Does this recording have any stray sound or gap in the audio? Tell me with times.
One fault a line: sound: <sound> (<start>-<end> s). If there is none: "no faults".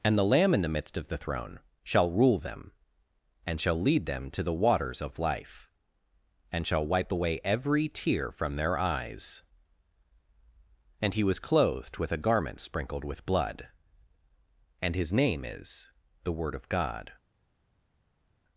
no faults